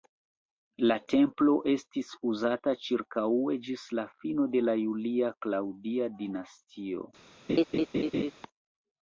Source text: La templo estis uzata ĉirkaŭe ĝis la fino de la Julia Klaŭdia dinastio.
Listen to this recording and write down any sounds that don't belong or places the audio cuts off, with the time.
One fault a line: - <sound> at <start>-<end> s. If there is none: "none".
- laugh at 7.5-8.3 s